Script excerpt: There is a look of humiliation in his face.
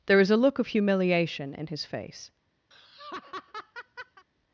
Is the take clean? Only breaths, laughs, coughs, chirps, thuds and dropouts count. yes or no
no